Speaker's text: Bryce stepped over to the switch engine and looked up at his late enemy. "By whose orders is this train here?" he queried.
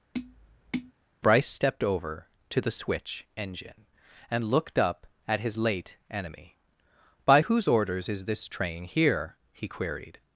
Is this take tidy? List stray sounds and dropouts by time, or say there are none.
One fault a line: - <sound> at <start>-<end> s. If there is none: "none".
- tap at 0.1-0.9 s